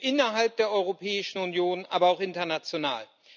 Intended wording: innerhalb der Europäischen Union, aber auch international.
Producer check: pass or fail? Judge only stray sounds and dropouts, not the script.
pass